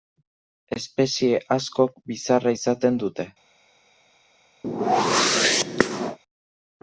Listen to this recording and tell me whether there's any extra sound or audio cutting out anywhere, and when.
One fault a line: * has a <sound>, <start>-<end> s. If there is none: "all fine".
* has a whoosh, 4.6-6.2 s